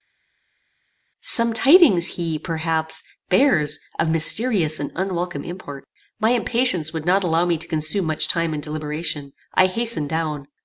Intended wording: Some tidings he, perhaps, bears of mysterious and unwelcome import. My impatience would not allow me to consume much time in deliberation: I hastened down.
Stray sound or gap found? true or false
false